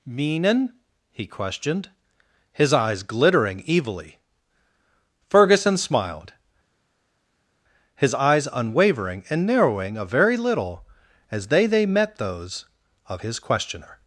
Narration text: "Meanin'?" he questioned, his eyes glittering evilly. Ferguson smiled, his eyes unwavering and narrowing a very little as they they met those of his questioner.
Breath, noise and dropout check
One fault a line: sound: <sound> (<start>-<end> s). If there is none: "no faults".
no faults